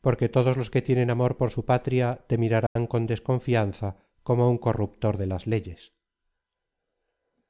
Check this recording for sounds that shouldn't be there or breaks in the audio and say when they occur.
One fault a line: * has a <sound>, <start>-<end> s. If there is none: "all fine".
* has a dropout, 2.7-2.8 s